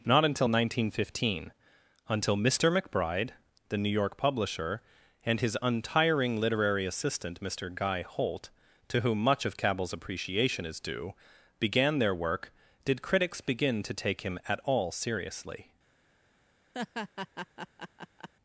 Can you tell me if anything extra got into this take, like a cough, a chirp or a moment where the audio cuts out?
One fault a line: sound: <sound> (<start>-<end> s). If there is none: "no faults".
sound: laugh (16.7-18.3 s)